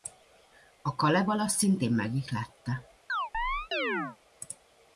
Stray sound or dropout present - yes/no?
yes